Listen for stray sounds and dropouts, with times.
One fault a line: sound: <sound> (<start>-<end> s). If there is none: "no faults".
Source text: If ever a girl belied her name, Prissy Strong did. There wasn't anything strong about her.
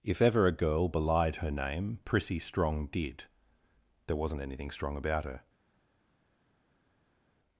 no faults